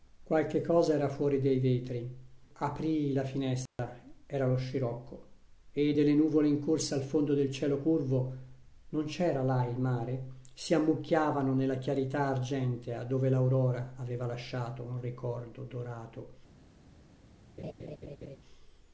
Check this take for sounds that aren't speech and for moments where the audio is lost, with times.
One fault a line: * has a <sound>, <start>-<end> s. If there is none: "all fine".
* has a dropout, 3.7-3.8 s
* has a laugh, 17.6-18.4 s